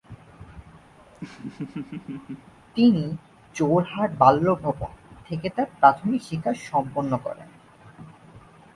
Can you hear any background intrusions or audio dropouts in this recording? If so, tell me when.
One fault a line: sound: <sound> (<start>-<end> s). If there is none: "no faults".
sound: laugh (1.0-2.5 s)